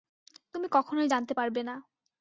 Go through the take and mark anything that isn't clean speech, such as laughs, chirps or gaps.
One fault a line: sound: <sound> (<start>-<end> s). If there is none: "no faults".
no faults